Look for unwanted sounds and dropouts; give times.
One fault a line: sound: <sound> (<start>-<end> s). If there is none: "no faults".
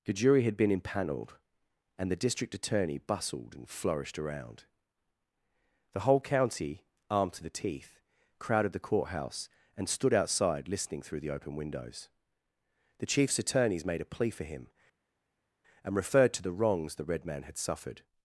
no faults